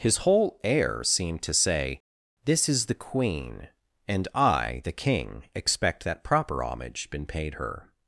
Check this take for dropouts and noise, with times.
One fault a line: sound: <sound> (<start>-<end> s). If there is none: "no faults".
no faults